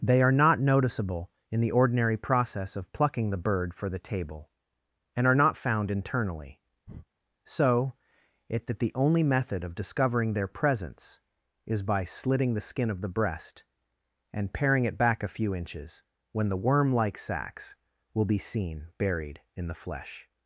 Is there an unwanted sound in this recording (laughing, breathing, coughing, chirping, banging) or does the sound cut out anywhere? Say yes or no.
yes